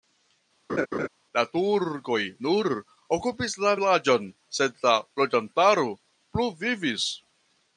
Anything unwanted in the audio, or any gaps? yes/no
yes